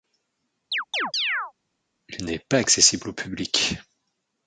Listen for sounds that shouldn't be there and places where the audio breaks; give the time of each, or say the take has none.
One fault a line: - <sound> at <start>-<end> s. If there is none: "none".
- chirp at 0.7-1.5 s